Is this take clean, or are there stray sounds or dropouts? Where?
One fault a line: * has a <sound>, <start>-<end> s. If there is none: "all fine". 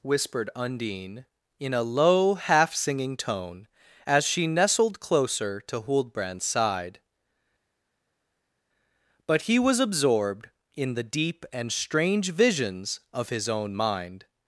all fine